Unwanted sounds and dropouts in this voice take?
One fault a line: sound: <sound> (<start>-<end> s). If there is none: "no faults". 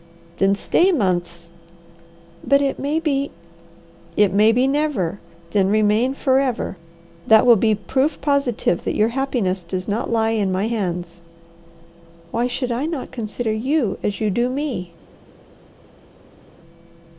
no faults